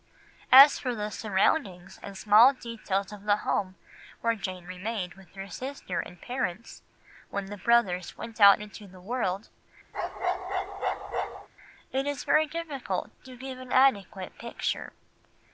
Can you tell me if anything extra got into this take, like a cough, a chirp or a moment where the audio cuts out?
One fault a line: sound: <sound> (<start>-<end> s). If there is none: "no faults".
sound: bark (9.9-11.5 s)